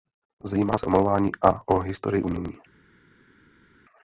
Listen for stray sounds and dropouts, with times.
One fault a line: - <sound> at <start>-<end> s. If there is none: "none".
none